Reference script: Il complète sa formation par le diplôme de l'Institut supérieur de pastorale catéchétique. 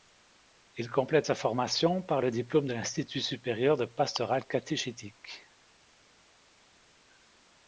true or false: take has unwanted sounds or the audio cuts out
false